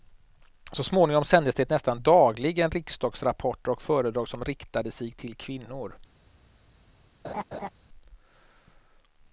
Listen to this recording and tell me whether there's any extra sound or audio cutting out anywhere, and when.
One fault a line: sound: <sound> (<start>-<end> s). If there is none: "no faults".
sound: laugh (7.2-7.7 s)